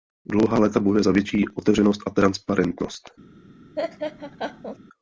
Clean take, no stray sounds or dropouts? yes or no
no